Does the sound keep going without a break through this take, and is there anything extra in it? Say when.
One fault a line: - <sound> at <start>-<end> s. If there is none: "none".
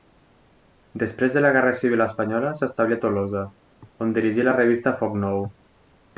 none